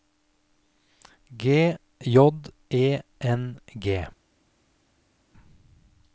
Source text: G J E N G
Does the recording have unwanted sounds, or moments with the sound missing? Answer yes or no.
no